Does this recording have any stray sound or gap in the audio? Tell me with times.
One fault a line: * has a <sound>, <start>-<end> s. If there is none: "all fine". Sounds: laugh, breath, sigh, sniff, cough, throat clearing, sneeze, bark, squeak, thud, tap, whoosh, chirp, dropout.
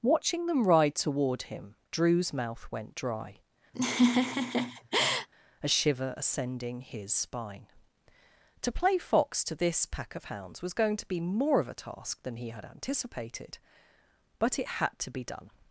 * has a laugh, 3.7-5.3 s